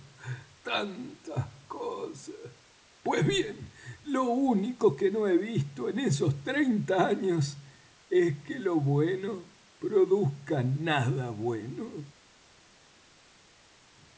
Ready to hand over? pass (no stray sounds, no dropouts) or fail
pass